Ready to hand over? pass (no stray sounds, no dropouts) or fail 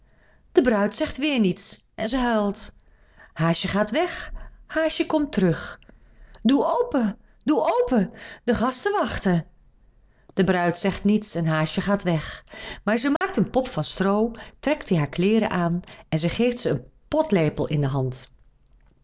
fail